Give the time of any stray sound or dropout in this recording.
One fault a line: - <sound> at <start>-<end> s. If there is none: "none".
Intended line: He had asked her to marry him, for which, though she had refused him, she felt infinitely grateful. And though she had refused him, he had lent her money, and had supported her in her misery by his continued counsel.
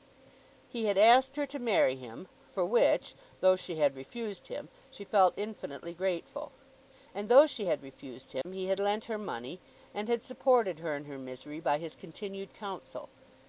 - dropout at 8.4-8.5 s